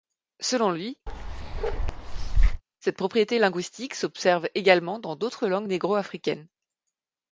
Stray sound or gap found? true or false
true